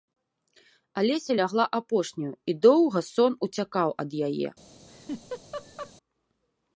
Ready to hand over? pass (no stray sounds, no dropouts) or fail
fail